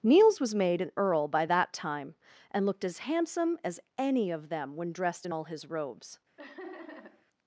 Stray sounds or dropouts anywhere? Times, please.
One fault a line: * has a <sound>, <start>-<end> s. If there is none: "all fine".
* has a laugh, 6.4-7.3 s